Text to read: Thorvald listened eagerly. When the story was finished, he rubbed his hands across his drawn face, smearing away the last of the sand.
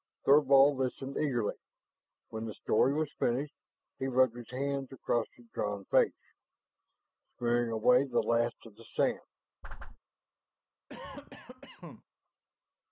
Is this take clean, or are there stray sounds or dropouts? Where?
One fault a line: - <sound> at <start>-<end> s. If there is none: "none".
- whoosh at 9.6-10.0 s
- cough at 10.9-12.0 s